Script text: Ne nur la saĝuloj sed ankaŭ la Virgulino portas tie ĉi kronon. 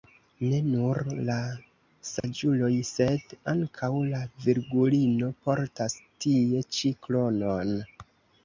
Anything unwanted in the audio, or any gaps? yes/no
yes